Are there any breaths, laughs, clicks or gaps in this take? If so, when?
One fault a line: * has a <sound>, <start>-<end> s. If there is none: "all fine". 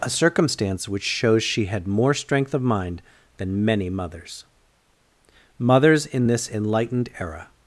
all fine